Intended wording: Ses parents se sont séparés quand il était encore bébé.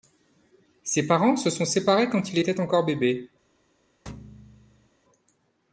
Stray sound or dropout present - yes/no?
yes